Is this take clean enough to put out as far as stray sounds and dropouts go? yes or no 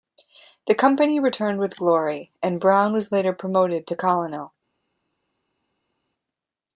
yes